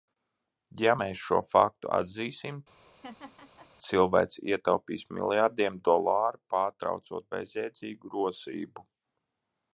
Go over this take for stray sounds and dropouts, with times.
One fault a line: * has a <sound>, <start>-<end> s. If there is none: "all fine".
* has a laugh, 2.7-3.7 s